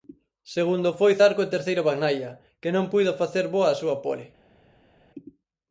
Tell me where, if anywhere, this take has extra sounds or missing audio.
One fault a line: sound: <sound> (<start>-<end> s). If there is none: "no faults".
no faults